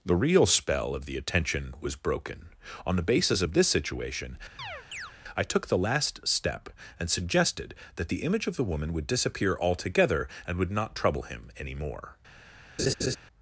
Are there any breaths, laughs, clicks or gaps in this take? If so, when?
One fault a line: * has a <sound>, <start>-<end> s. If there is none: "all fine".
* has a chirp, 4.6-5.1 s
* has a laugh, 12.8-13.2 s